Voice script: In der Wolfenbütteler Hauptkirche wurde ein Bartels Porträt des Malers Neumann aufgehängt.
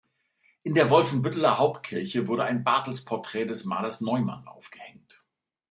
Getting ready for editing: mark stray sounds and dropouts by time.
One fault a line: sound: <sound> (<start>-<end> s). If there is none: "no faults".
no faults